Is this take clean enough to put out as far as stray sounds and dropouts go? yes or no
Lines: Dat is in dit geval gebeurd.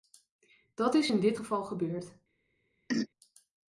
no